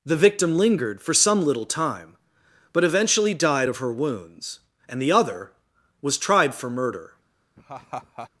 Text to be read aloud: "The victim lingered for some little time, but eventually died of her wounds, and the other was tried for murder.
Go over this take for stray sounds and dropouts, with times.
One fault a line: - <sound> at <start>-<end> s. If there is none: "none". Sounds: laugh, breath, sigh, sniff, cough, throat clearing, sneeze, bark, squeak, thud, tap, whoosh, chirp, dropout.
- laugh at 7.6-8.3 s